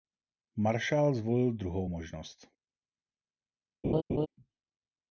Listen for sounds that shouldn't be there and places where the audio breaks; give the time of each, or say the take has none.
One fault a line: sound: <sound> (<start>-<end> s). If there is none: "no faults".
sound: laugh (3.8-4.3 s)